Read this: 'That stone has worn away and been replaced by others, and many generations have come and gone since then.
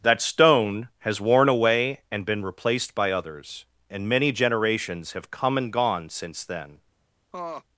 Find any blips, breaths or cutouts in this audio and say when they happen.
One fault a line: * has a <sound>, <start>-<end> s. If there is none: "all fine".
* has a laugh, 7.3-7.6 s